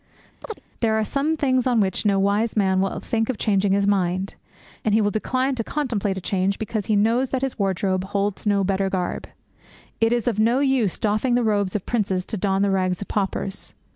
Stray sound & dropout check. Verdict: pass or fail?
fail